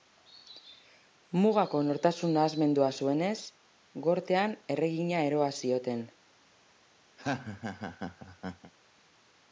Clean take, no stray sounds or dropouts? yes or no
no